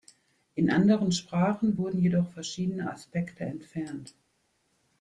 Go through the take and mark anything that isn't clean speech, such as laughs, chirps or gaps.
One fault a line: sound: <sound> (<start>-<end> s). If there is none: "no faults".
no faults